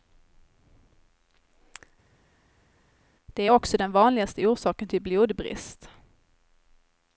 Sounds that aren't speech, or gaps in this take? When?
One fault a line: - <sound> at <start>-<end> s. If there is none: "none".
none